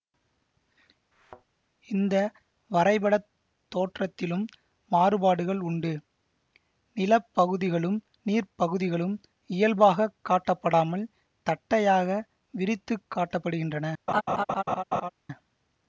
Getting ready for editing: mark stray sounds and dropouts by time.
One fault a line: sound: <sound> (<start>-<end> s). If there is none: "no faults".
sound: thud (1.1-1.5 s)
sound: laugh (14.1-15.1 s)